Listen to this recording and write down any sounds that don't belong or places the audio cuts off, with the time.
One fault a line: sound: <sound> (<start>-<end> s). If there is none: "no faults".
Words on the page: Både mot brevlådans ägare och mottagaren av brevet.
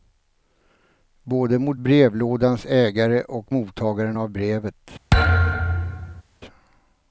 sound: thud (5.1-6.2 s)